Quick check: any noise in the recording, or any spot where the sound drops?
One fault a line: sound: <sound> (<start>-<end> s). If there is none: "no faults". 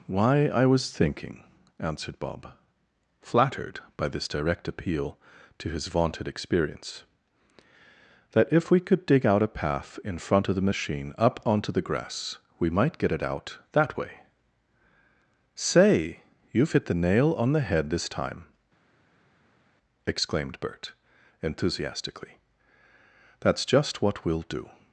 no faults